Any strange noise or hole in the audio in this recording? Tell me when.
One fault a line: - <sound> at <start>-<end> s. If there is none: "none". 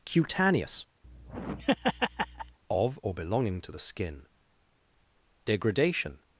- laugh at 1.0-2.6 s